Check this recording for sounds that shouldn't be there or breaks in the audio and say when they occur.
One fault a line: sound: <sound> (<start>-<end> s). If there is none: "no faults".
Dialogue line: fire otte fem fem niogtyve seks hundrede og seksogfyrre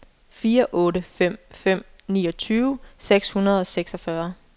no faults